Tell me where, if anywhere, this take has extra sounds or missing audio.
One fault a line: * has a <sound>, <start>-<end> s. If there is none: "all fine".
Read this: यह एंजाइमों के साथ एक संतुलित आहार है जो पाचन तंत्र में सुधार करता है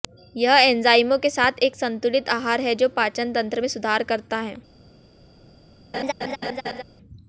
* has a laugh, 5.9-6.8 s